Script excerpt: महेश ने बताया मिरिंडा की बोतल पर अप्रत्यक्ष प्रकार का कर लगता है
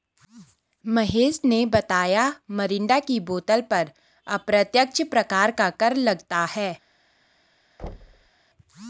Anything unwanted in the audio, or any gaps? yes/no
yes